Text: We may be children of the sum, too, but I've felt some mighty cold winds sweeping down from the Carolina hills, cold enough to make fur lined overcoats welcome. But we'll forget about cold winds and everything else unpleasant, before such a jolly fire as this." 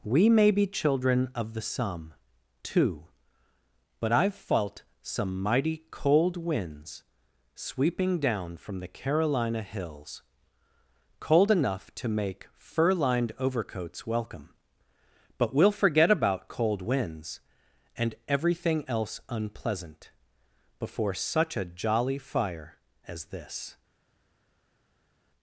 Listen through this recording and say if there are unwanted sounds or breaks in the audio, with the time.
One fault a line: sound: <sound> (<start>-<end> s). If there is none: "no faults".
no faults